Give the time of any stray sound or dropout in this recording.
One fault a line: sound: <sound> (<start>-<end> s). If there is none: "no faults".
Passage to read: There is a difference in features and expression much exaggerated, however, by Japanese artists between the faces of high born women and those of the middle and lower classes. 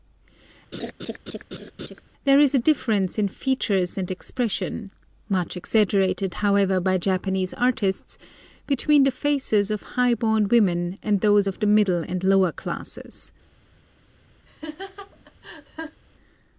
sound: laugh (0.7-2.0 s)
sound: laugh (14.5-16.0 s)